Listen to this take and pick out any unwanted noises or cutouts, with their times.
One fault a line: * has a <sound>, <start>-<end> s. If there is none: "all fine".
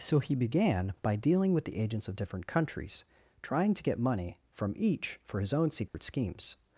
* has a dropout, 5.9-5.9 s